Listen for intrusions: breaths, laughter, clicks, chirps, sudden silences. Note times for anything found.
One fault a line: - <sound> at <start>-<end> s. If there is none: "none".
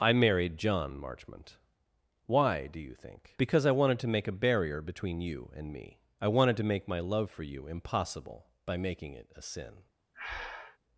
- breath at 10.1-10.8 s